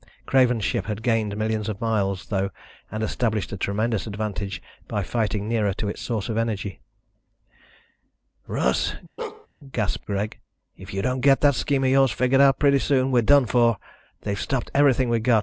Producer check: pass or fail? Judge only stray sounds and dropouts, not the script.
fail